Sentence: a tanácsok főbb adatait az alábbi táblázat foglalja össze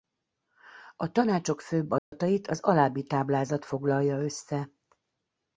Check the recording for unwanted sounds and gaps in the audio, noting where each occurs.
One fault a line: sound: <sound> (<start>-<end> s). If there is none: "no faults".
sound: dropout (2.0-2.1 s)